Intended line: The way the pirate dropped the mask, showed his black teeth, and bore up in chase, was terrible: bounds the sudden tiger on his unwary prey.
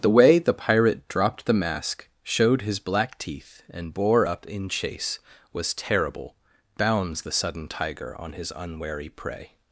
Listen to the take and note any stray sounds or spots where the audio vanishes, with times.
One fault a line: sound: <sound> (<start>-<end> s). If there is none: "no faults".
no faults